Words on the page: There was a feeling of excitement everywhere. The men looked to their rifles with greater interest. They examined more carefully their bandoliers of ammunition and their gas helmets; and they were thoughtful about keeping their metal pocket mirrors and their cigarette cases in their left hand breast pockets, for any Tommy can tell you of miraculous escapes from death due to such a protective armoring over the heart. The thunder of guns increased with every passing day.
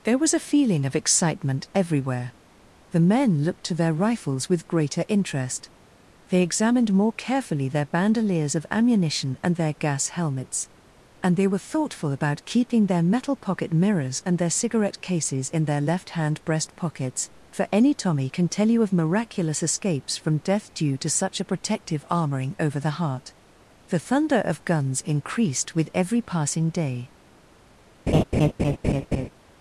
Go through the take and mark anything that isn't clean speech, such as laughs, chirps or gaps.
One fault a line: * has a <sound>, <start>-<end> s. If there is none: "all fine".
* has a laugh, 28.1-29.3 s